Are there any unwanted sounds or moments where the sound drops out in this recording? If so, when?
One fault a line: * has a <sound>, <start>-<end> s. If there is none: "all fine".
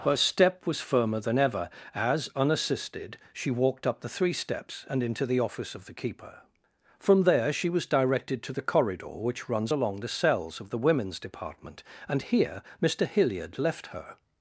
all fine